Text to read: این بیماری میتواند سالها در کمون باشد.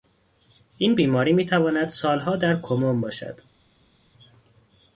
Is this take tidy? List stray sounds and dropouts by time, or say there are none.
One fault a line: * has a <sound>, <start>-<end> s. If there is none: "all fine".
all fine